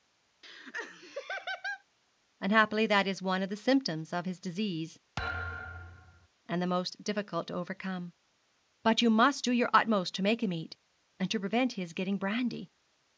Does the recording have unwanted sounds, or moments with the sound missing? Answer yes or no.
yes